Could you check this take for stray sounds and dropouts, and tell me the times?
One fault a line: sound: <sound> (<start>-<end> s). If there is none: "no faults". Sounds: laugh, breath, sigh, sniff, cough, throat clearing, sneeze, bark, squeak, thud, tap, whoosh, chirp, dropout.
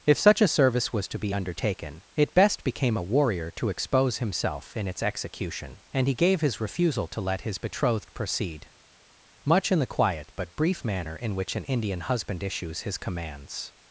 no faults